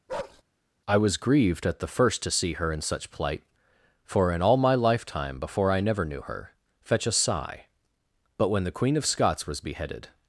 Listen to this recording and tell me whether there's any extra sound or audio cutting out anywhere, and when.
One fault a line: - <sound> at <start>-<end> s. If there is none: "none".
- bark at 0.1-0.4 s